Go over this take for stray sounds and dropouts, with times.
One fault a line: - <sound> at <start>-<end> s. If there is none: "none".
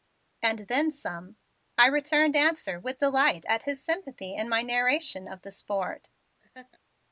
- laugh at 6.4-6.8 s